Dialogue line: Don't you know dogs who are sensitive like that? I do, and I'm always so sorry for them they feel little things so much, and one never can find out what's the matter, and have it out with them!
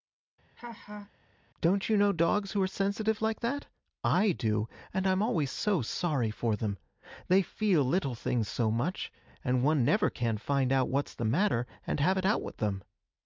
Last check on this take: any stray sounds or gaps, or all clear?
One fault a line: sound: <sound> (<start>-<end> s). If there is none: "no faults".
sound: laugh (0.6-1.1 s)